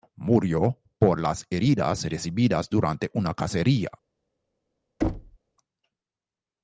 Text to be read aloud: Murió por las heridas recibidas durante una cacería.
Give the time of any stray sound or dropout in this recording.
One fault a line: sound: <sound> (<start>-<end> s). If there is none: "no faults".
sound: thud (5.0-5.4 s)